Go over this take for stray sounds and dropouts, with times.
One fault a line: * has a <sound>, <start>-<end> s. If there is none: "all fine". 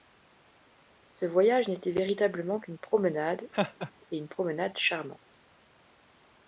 * has a laugh, 3.5-3.9 s